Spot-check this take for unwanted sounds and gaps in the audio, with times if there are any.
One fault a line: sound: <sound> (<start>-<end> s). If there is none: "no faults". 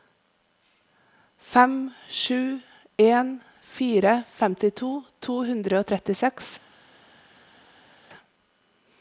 no faults